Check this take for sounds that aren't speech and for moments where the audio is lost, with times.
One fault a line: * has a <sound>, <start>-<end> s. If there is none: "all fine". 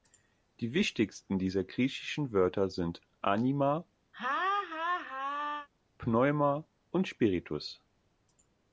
* has a laugh, 4.1-5.7 s